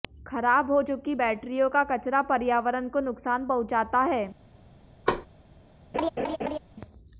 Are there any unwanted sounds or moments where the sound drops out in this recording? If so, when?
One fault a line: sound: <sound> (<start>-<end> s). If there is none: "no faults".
sound: thud (5.1-5.3 s)
sound: laugh (5.9-6.6 s)